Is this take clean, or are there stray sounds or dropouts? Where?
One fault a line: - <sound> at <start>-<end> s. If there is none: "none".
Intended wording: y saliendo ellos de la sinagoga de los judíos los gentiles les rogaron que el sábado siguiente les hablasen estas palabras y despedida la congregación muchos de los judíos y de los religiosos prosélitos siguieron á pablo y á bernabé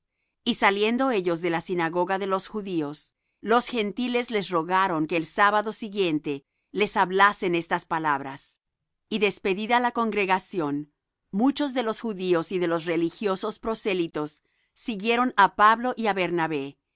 none